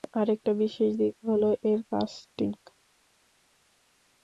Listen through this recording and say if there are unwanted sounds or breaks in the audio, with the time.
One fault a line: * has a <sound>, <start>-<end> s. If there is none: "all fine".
all fine